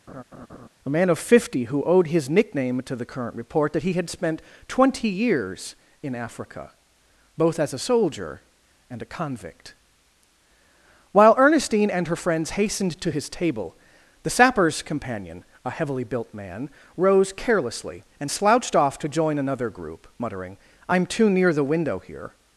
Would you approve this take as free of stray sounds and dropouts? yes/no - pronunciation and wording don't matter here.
no